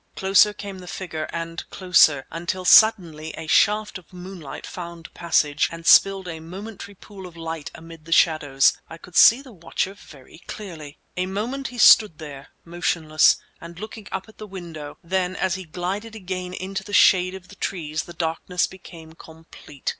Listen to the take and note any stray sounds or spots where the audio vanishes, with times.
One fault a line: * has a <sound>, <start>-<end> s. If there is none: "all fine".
all fine